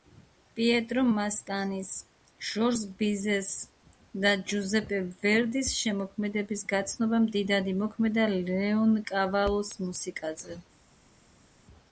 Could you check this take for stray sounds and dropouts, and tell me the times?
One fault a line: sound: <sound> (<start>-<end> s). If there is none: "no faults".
no faults